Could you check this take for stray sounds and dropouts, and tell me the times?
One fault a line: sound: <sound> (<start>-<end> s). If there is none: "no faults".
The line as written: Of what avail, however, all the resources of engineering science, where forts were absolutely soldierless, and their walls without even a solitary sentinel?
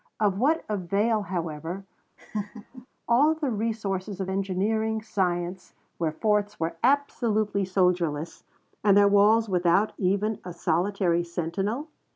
sound: laugh (2.2-2.9 s)